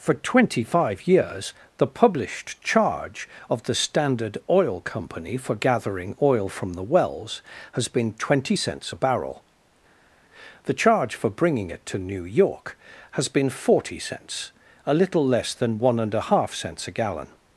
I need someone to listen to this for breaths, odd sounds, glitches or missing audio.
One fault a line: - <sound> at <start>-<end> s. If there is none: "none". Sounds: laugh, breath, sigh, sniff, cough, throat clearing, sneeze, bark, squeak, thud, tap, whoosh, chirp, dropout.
none